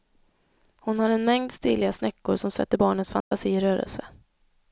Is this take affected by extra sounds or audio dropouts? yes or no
yes